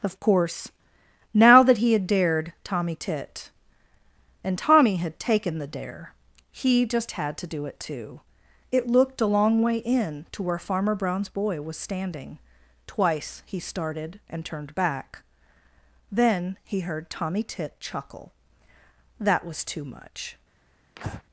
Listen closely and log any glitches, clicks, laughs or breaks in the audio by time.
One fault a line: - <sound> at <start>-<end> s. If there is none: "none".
- breath at 21.0-21.2 s